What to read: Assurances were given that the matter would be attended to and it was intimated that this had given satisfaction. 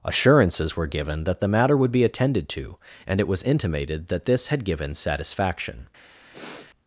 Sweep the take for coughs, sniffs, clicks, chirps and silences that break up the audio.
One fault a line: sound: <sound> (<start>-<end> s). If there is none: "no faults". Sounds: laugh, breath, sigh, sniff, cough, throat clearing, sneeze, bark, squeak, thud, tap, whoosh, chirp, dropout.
sound: sniff (6.3-6.7 s)